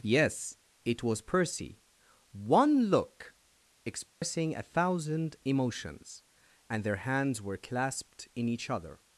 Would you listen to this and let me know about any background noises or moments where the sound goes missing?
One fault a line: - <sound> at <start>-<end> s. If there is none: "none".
- dropout at 4.1-4.2 s